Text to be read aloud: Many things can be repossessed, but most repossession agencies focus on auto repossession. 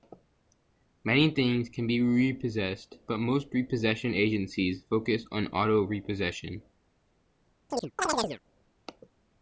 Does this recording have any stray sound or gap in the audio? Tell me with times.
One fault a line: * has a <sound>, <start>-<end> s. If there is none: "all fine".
* has a chirp, 7.7-8.4 s